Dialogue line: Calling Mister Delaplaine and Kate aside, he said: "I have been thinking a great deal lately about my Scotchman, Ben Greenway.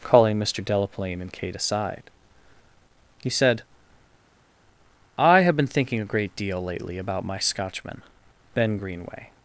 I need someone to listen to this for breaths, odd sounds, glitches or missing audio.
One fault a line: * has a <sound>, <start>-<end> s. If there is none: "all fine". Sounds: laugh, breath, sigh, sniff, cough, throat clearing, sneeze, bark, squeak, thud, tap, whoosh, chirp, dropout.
all fine